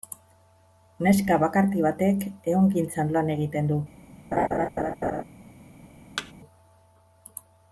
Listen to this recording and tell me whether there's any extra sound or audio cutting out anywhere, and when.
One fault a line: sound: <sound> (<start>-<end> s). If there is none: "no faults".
sound: laugh (4.3-5.2 s)
sound: thud (6.2-6.3 s)